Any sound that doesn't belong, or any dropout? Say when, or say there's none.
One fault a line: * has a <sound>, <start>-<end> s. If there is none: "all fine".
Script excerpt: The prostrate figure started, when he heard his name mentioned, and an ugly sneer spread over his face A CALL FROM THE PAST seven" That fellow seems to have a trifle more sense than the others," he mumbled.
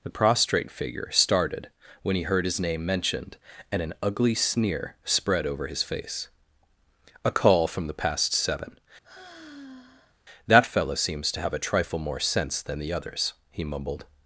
* has a sigh, 9.0-10.2 s